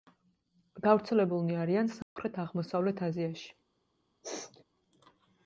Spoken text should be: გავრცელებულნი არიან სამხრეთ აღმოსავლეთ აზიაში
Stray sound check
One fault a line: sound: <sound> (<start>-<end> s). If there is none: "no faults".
sound: dropout (2.0-2.2 s)
sound: sneeze (4.2-4.6 s)